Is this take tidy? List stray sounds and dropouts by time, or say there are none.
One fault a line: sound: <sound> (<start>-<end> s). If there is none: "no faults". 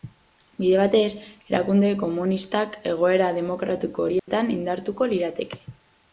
sound: dropout (4.2-4.3 s)